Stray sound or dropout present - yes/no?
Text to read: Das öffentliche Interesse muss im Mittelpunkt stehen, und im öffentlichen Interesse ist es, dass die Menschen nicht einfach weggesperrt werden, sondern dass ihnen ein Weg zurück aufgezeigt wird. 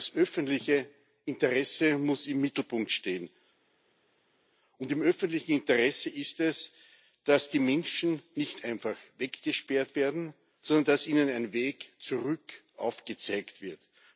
no